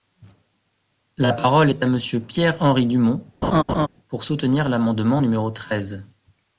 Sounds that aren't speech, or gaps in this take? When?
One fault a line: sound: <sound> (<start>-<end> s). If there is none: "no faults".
sound: laugh (3.4-3.9 s)